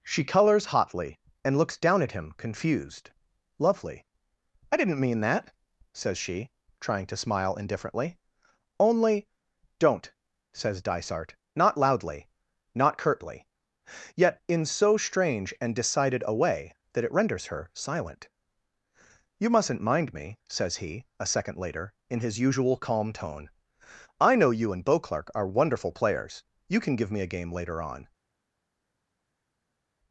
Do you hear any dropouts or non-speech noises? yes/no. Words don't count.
no